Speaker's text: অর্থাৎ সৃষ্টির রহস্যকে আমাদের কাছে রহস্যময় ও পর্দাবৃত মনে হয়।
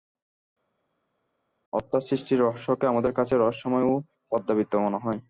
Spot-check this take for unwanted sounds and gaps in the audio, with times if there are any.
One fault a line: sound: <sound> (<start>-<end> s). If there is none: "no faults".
no faults